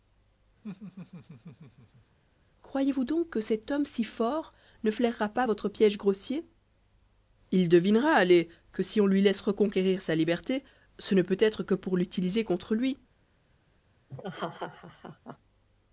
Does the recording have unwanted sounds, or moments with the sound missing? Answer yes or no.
yes